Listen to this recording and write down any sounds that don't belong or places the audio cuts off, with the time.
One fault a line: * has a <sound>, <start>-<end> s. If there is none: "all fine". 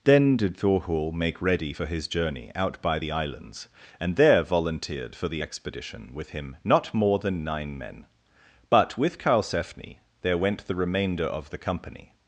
all fine